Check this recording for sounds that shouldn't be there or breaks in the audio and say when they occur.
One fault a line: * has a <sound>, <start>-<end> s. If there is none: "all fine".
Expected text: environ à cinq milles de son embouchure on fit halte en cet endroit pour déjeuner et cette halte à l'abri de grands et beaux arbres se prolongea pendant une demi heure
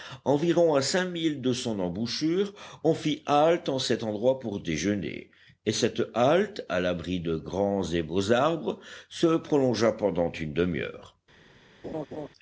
* has a laugh, 11.8-12.3 s